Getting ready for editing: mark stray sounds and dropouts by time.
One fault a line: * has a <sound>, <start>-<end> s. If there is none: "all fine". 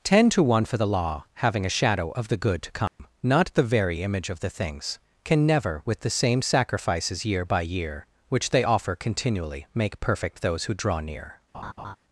* has a dropout, 2.9-3.0 s
* has a laugh, 11.5-12.0 s